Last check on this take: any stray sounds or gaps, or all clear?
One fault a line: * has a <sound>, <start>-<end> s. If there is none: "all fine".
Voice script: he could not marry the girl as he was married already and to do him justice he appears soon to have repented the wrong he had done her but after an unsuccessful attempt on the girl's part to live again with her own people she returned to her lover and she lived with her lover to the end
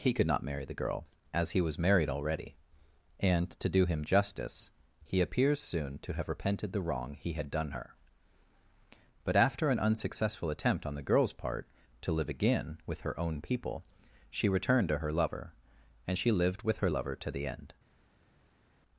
all fine